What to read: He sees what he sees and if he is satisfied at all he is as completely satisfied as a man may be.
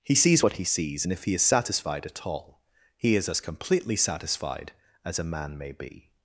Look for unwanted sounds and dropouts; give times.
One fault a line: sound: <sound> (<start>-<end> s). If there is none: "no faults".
no faults